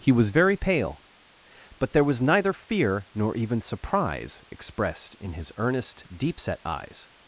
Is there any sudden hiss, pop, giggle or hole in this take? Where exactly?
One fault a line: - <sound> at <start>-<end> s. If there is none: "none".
none